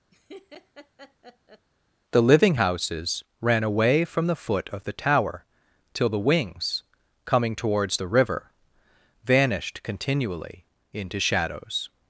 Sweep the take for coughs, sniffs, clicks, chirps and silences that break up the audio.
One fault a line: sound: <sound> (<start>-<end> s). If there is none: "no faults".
sound: laugh (0.1-1.7 s)